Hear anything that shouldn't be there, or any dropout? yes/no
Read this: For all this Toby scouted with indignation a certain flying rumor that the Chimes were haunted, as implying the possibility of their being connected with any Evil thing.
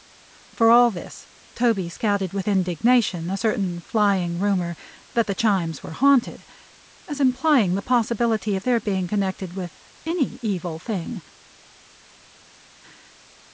no